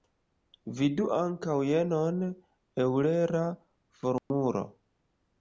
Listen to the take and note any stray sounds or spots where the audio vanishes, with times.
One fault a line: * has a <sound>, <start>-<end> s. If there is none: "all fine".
* has a dropout, 4.2-4.3 s